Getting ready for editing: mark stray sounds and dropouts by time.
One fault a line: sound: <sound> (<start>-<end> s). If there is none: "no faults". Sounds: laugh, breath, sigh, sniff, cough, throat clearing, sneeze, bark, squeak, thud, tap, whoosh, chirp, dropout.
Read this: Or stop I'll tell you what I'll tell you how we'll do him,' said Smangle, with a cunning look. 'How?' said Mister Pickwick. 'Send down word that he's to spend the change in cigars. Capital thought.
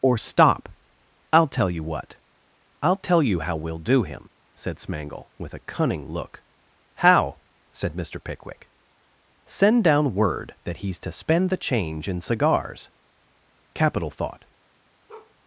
sound: bark (15.1-15.4 s)